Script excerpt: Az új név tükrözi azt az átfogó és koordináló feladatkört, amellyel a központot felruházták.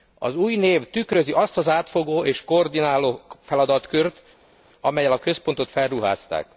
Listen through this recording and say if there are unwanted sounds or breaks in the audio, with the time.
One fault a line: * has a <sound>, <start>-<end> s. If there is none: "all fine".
all fine